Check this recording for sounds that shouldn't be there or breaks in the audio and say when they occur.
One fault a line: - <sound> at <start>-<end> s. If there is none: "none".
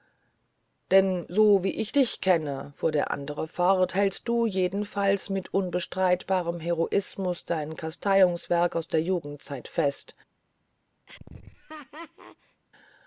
- laugh at 11.1-12.6 s